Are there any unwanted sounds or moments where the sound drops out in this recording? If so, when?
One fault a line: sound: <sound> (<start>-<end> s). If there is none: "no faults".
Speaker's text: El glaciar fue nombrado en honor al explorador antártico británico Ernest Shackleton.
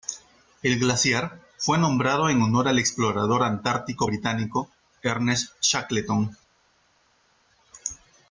no faults